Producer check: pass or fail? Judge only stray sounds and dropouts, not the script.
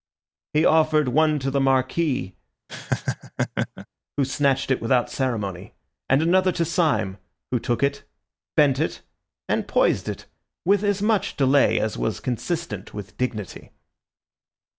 fail